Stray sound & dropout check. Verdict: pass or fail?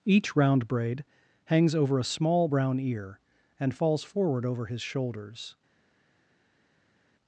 pass